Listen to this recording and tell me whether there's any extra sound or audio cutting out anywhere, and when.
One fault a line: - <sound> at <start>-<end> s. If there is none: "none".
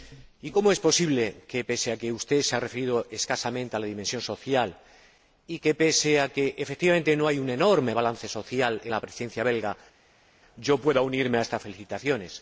none